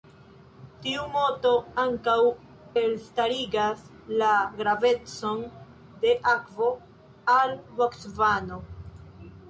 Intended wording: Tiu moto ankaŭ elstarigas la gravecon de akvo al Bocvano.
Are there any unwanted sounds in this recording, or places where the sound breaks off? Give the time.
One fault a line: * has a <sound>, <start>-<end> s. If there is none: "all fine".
all fine